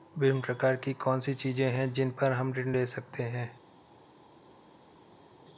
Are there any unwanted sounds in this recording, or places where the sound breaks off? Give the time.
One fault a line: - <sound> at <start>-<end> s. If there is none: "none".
none